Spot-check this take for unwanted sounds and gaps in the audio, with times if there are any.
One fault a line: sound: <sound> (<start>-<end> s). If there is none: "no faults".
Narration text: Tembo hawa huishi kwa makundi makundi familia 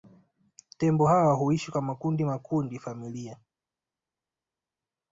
no faults